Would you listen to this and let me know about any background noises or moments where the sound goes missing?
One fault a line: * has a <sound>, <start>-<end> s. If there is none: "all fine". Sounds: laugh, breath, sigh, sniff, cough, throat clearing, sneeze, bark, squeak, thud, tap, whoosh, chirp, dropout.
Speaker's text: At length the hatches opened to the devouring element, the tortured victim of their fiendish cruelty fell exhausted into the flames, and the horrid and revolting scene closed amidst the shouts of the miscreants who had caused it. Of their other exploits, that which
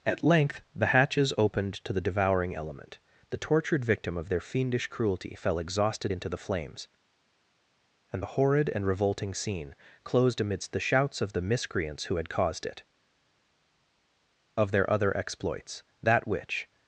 all fine